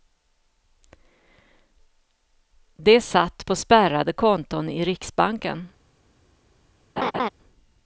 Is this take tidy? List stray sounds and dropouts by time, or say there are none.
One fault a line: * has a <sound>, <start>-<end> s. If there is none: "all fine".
* has a laugh, 7.0-7.3 s